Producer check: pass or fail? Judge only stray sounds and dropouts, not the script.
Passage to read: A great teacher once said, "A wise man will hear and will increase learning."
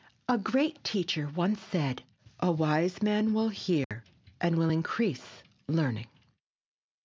fail